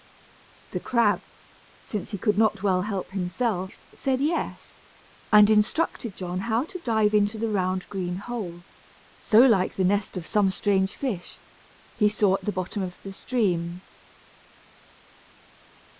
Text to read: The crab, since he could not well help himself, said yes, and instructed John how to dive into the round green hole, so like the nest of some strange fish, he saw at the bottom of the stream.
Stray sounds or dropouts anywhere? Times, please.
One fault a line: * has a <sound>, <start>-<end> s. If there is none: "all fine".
all fine